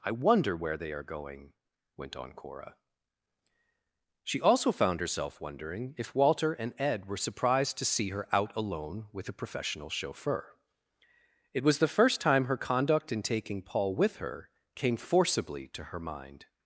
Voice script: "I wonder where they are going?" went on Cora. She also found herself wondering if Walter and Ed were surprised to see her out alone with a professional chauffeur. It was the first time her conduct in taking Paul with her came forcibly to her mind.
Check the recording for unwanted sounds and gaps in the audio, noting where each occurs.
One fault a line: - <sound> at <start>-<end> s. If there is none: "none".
none